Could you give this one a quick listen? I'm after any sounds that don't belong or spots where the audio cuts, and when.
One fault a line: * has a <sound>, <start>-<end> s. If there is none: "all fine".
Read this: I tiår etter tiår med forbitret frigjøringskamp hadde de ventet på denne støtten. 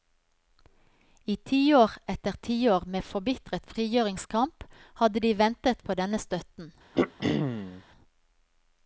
* has a throat clearing, 6.9-7.8 s